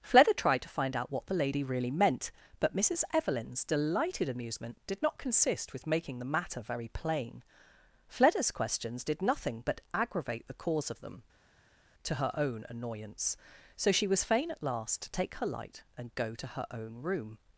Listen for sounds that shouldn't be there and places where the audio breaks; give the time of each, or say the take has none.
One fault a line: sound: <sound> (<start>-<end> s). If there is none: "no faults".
no faults